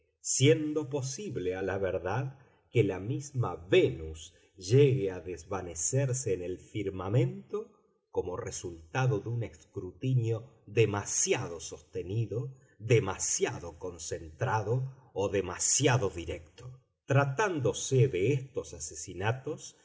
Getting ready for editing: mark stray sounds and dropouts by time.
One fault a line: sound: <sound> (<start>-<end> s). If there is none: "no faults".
no faults